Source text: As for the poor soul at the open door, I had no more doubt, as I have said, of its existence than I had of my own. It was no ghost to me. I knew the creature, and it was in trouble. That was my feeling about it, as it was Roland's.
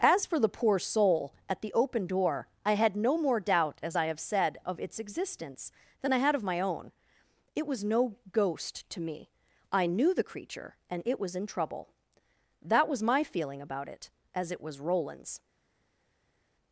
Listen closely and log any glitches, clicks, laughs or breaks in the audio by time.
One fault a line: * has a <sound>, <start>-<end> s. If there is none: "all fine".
all fine